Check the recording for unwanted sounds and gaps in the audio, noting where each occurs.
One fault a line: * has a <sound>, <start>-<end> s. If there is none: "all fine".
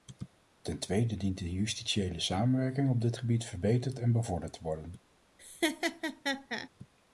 * has a laugh, 5.4-6.7 s